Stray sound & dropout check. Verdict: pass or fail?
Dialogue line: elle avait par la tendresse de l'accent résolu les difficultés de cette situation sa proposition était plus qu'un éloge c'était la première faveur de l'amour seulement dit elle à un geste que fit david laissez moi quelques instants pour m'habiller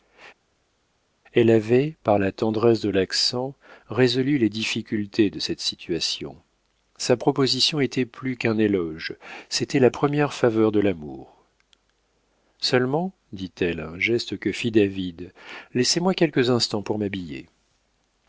pass